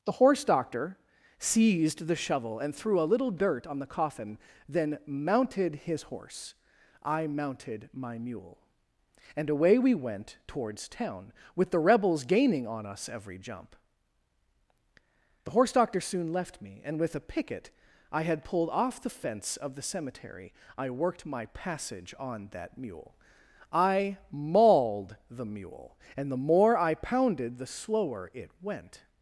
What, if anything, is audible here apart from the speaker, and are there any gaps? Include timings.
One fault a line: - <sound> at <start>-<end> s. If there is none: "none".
none